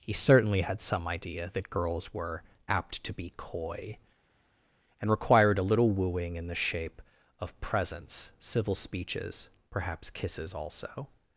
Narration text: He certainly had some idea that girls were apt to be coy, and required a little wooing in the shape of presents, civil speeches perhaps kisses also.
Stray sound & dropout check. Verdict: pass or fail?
pass